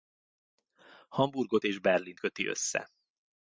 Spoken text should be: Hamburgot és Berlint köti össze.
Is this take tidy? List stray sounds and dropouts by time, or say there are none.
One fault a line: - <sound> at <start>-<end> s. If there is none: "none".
none